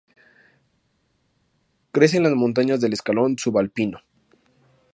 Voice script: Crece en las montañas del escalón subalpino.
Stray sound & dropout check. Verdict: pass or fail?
pass